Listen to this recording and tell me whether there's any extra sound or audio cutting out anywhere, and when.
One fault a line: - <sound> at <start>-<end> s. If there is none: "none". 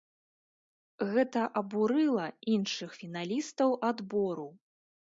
none